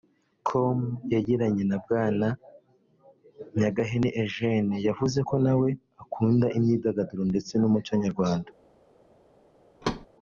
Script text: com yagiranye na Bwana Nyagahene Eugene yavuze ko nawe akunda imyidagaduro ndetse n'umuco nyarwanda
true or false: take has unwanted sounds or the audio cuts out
true